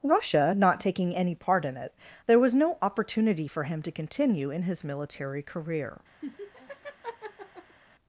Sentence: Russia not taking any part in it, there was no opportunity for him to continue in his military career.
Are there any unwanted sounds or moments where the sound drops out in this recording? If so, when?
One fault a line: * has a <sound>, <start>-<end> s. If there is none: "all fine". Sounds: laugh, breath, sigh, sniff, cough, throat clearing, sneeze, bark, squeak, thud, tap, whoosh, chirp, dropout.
* has a laugh, 6.2-7.8 s